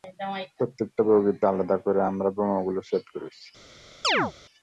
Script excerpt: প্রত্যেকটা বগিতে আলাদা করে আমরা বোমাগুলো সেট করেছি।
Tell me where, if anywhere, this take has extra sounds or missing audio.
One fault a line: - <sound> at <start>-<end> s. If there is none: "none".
- chirp at 4.0-4.3 s